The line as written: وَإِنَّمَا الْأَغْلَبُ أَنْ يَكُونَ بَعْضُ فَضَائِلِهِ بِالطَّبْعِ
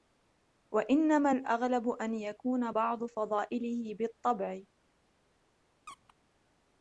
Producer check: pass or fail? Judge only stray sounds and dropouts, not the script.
fail